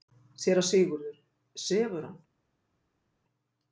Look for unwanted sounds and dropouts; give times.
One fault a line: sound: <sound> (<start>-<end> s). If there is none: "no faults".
no faults